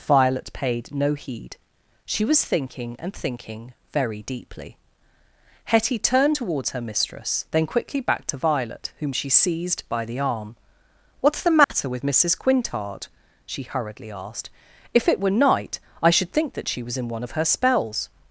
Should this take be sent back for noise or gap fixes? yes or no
yes